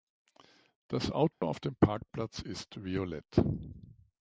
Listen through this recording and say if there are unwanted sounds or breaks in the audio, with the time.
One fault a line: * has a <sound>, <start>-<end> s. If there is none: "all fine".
* has a dropout, 1.3-1.4 s